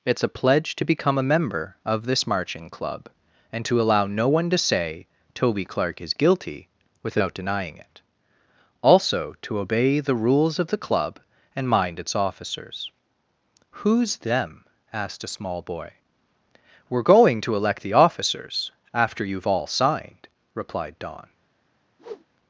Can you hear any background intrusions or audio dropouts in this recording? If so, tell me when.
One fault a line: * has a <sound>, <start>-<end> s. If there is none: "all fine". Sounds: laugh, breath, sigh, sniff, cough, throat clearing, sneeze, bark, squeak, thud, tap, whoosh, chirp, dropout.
* has a whoosh, 22.0-22.3 s